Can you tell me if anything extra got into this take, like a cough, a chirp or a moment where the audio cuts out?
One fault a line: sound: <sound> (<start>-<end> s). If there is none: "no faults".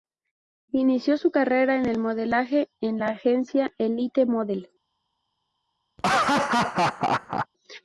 sound: laugh (6.0-7.5 s)